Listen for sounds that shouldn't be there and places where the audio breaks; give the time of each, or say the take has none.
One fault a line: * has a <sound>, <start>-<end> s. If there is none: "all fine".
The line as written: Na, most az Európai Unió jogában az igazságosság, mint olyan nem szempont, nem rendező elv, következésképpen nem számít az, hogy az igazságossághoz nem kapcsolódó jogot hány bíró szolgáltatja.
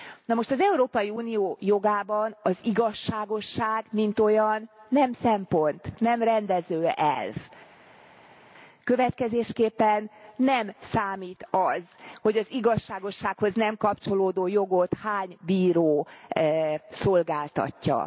all fine